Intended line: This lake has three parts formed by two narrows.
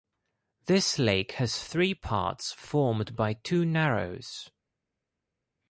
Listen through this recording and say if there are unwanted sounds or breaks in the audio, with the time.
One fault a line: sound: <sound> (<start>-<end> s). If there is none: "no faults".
no faults